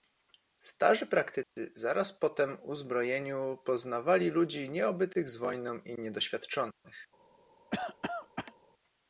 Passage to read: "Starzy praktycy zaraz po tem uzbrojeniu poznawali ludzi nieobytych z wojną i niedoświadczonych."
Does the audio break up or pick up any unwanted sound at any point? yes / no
yes